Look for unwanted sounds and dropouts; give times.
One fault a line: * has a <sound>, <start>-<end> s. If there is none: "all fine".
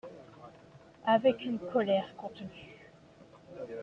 all fine